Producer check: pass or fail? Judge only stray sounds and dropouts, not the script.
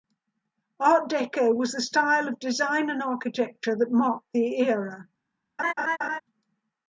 fail